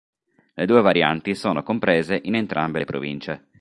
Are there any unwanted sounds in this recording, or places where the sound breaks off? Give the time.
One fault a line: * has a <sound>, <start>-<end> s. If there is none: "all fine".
all fine